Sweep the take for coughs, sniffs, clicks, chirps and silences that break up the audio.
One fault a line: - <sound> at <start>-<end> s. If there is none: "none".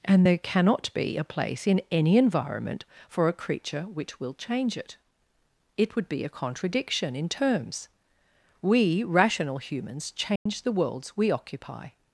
- dropout at 10.4-10.5 s